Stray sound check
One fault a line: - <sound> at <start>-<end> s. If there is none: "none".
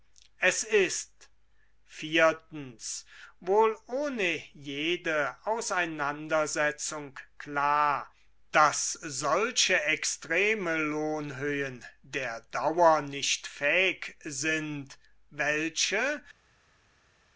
none